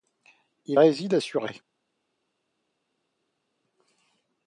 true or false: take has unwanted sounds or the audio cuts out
false